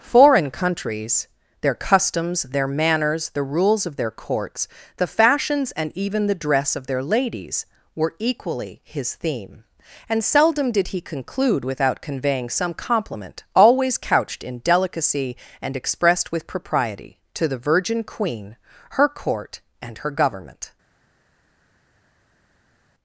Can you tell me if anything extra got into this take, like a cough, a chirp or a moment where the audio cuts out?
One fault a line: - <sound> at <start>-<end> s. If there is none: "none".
none